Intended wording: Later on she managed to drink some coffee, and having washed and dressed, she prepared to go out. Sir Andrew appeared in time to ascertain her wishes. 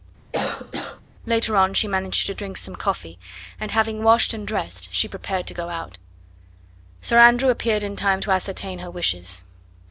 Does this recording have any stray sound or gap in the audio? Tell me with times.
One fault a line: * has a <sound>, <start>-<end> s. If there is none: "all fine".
* has a cough, 0.3-1.0 s